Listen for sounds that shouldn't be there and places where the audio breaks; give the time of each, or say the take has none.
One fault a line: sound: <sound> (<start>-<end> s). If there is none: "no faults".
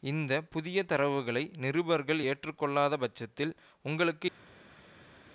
no faults